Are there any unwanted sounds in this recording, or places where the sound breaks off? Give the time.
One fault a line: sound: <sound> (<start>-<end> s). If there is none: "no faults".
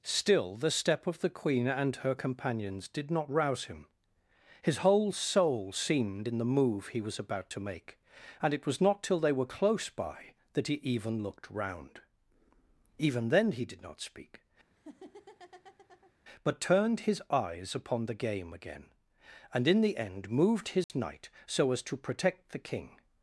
sound: laugh (14.7-16.1 s)
sound: dropout (20.8-20.9 s)